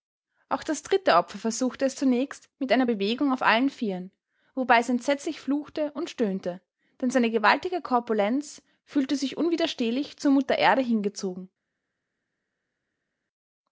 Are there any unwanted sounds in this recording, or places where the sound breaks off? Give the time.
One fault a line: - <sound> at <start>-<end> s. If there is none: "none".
none